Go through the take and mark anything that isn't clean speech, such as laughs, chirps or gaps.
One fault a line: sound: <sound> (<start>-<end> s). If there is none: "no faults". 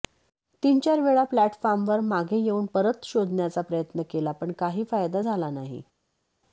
no faults